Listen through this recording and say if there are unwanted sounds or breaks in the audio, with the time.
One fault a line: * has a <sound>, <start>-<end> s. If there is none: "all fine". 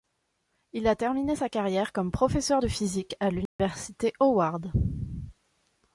* has a dropout, 3.5-3.6 s